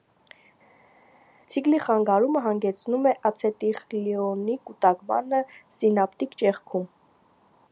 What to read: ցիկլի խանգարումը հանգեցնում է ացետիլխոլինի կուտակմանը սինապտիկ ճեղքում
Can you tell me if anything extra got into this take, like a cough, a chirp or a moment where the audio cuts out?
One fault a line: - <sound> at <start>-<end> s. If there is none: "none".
none